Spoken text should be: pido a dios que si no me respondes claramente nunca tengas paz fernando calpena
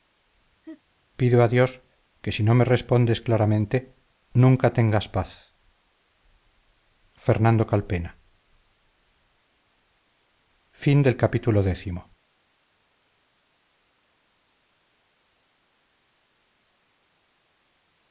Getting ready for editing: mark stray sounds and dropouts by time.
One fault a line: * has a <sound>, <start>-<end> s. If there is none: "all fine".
* has a laugh, 0.6-0.8 s